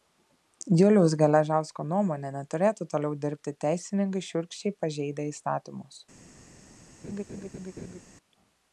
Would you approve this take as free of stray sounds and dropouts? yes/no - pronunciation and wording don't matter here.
no